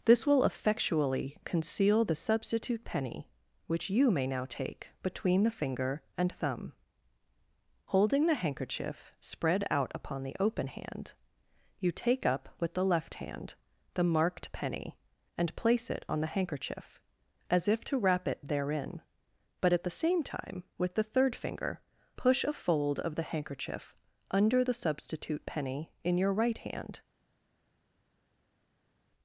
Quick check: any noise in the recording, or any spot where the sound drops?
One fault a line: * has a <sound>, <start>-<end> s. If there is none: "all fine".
all fine